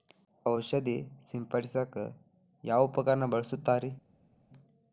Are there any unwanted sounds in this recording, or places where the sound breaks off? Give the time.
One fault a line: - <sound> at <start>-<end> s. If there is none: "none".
none